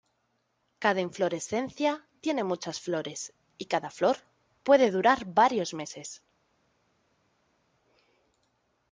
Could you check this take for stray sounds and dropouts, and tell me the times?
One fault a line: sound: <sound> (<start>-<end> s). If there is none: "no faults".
no faults